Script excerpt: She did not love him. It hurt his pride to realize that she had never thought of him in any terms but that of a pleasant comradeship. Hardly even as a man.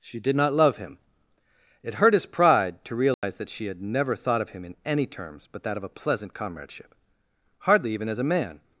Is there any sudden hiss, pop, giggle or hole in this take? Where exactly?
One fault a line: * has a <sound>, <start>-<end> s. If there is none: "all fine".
* has a dropout, 3.1-3.2 s